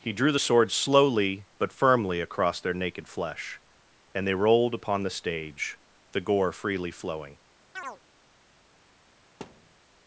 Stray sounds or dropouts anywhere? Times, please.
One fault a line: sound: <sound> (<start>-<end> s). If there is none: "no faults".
sound: chirp (7.8-8.0 s)
sound: thud (9.4-9.8 s)